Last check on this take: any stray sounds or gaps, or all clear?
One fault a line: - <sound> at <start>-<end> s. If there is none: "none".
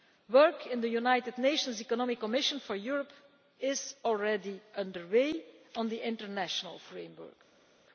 none